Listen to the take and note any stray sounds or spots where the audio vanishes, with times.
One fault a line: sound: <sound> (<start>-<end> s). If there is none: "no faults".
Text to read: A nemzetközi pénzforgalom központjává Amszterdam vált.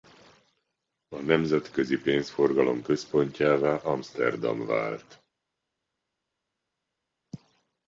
no faults